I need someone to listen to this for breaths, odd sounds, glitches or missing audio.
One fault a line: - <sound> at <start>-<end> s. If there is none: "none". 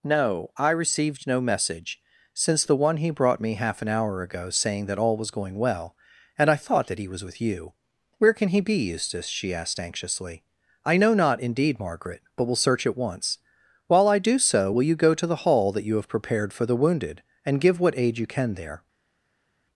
none